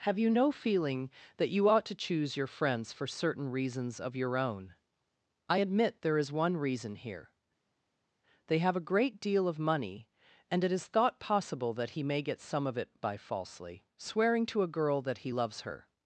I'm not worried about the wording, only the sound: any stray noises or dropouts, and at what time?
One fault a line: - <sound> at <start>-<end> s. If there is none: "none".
none